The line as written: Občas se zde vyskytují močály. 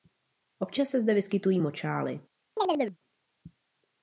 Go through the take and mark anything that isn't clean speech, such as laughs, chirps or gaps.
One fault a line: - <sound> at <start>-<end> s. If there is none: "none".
- chirp at 2.6-3.0 s